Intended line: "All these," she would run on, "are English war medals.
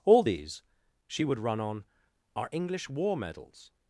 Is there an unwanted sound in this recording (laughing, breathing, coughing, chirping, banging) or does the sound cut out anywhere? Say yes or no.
no